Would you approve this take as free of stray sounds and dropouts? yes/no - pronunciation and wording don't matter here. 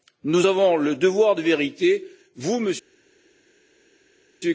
yes